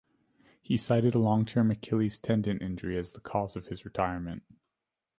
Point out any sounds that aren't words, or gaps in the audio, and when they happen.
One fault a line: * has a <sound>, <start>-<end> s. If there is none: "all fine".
all fine